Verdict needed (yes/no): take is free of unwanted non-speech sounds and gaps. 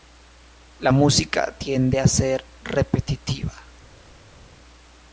yes